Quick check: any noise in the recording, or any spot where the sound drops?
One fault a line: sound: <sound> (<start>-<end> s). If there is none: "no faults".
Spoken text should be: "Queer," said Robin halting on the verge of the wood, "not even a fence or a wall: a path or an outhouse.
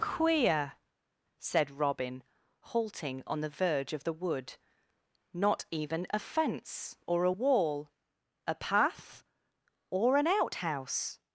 no faults